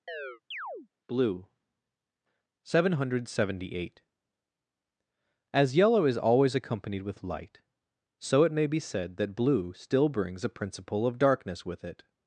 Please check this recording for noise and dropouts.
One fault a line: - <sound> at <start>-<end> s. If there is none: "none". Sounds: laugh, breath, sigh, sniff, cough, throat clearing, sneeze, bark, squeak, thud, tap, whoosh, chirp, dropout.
- chirp at 0.1-0.9 s